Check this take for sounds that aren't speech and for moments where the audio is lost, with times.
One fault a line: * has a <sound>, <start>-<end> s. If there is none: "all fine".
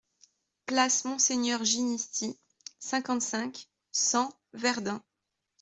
all fine